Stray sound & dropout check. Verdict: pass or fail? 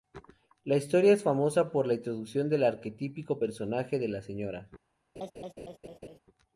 fail